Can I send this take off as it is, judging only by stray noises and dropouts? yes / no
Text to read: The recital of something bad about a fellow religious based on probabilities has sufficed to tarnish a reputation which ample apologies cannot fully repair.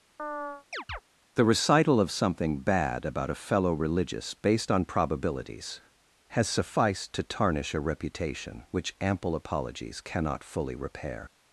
no